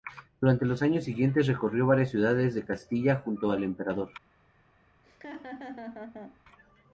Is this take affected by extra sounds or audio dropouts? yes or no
yes